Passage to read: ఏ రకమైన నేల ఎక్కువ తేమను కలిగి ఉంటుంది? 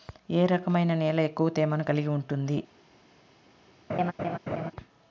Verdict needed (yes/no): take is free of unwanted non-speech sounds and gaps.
no